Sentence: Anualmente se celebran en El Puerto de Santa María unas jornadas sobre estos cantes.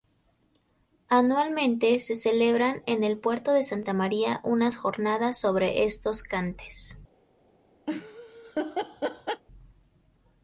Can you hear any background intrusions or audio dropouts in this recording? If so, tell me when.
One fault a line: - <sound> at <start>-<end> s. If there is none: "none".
- laugh at 7.9-9.4 s